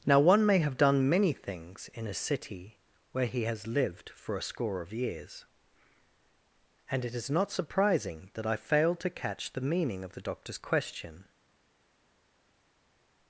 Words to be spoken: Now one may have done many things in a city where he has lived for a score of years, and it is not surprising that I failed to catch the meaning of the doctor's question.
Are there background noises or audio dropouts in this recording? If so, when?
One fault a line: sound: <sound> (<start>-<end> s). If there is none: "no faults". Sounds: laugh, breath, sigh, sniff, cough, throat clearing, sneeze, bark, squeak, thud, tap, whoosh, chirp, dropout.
no faults